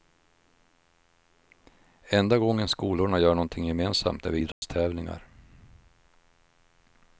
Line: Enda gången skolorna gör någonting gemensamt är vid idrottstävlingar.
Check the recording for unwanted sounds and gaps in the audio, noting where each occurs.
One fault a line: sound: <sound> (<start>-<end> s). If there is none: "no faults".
sound: dropout (4.5-4.6 s)